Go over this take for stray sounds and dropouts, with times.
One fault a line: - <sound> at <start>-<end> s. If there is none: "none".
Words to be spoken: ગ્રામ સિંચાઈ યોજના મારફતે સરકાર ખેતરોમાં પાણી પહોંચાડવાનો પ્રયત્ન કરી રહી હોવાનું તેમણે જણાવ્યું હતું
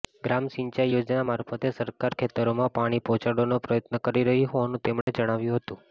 - dropout at 5.0-5.1 s